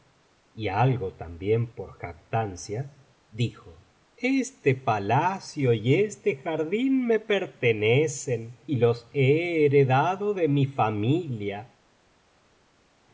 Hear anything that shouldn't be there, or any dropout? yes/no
no